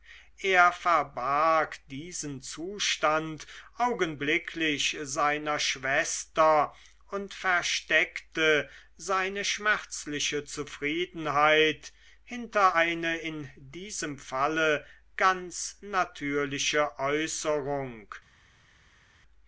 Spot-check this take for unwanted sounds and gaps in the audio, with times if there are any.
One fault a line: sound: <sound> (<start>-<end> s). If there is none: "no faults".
no faults